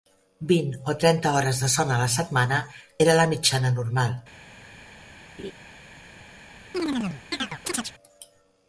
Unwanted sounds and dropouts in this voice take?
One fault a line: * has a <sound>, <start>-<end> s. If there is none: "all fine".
* has a laugh, 5.4-5.5 s
* has a chirp, 6.7-7.9 s